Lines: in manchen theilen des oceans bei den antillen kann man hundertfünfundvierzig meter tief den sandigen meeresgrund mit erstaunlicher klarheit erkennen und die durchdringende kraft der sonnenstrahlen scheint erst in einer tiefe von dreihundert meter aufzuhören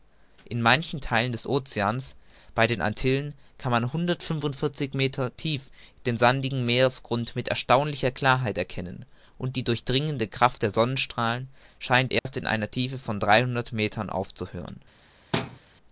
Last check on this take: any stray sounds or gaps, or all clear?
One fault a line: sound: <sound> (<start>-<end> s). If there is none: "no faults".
sound: dropout (12.2-12.3 s)
sound: thud (15.3-15.6 s)